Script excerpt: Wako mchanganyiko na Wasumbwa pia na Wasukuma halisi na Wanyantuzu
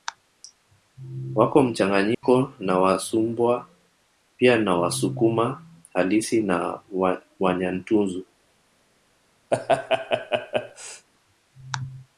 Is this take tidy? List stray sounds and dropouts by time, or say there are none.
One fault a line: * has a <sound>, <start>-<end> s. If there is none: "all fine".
* has a dropout, 2.1-2.2 s
* has a laugh, 9.5-11.1 s